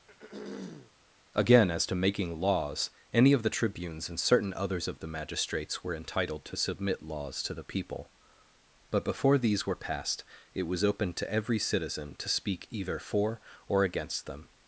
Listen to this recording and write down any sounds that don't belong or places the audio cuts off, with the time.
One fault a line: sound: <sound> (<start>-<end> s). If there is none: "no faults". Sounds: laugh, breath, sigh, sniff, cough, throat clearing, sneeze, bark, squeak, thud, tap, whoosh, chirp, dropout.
sound: throat clearing (0.1-0.9 s)